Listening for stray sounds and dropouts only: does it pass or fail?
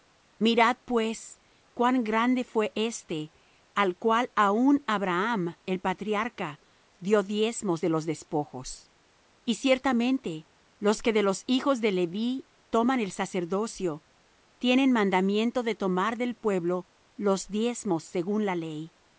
pass